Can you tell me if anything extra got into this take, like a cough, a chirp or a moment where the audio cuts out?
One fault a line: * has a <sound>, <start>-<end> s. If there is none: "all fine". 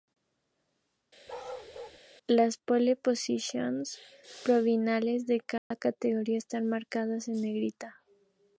* has a bark, 1.3-2.0 s
* has a dropout, 5.6-5.7 s